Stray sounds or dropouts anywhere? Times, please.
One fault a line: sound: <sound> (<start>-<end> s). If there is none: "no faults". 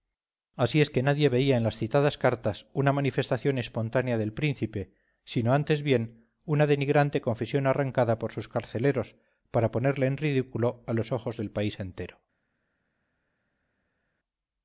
no faults